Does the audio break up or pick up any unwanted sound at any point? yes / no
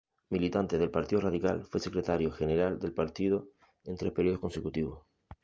no